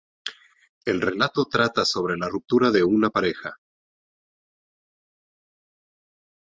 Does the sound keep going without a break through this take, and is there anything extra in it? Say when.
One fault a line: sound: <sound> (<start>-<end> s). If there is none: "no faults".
no faults